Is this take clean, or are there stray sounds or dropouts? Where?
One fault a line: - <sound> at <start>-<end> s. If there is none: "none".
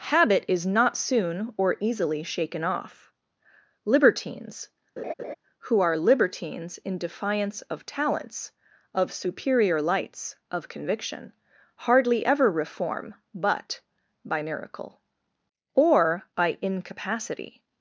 - laugh at 5.0-5.3 s